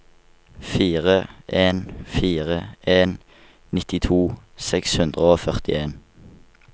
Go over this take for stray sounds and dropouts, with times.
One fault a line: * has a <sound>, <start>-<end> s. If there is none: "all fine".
all fine